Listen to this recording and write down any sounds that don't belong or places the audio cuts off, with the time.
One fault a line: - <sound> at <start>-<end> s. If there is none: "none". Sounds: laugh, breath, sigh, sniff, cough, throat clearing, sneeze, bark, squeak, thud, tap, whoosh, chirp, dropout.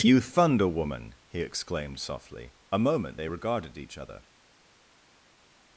none